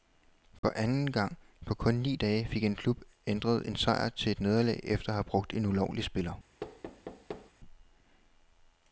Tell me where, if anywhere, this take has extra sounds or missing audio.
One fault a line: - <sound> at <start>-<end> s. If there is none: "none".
- dropout at 0.6-0.6 s
- thud at 6.6-7.5 s